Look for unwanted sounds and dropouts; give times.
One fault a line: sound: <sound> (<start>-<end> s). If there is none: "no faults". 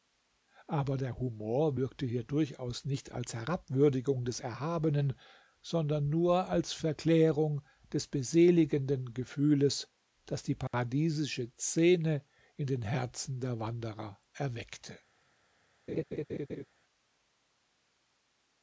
sound: dropout (10.7-10.7 s)
sound: laugh (15.9-16.6 s)